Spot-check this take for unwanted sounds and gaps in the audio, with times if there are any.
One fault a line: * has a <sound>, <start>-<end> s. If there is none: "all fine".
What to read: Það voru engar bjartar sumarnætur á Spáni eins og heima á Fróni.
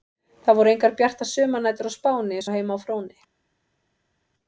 all fine